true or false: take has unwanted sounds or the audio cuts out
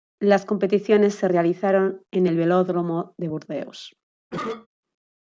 true